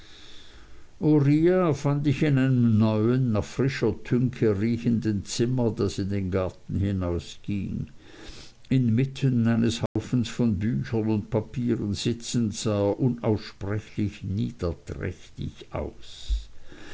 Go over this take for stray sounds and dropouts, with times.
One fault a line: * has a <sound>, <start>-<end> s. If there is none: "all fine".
* has a dropout, 9.9-10.0 s